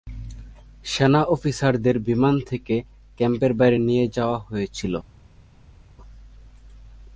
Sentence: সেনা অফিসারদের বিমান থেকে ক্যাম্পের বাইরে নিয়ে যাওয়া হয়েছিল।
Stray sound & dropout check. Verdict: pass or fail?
pass